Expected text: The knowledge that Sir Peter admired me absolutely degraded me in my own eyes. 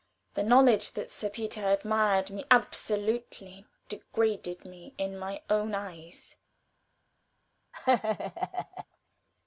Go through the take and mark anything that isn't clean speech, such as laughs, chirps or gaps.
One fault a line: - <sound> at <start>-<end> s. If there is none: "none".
- laugh at 7.7-8.9 s